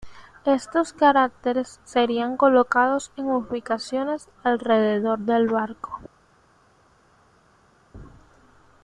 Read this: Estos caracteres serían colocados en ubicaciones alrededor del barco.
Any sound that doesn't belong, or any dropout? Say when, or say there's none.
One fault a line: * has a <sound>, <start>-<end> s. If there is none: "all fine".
all fine